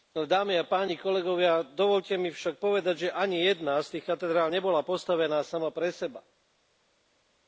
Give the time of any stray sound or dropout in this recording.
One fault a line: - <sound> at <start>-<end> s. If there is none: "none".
none